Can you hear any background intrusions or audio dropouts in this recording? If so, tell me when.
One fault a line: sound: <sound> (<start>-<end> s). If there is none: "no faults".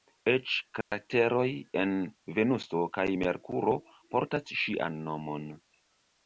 sound: dropout (0.8-0.9 s)